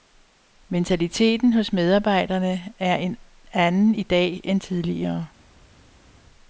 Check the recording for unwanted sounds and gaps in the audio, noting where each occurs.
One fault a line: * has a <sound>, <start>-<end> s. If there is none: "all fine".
all fine